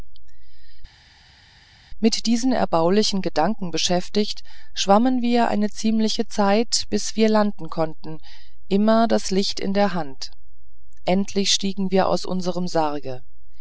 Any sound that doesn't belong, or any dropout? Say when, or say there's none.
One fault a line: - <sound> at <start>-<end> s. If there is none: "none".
none